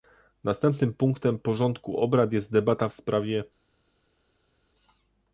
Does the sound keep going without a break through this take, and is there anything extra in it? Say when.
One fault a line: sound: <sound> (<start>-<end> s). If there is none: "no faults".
no faults